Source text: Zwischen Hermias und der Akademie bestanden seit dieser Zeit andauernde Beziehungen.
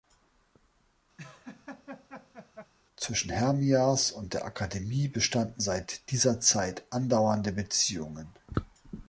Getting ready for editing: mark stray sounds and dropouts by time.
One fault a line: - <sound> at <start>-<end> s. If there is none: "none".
- laugh at 1.2-2.7 s